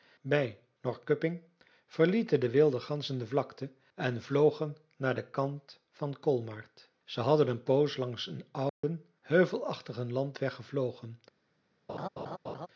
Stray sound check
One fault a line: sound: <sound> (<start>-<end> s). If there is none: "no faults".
sound: dropout (8.7-8.8 s)
sound: laugh (11.9-12.7 s)